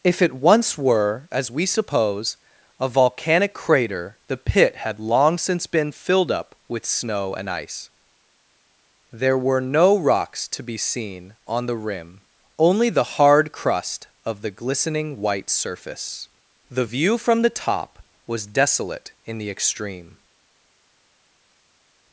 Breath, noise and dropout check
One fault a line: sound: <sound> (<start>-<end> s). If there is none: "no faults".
no faults